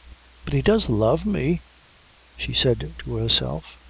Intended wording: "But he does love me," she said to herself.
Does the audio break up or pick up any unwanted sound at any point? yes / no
no